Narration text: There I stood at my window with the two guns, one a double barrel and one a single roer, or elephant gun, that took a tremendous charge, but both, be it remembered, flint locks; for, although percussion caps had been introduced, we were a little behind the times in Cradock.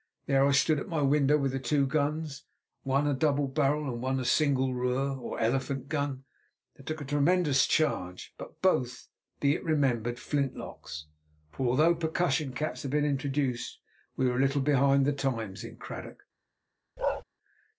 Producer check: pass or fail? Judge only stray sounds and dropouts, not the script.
fail